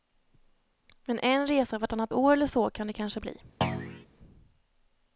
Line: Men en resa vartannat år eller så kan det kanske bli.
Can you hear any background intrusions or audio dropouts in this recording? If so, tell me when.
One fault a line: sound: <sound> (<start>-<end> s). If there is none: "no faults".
sound: thud (3.6-4.1 s)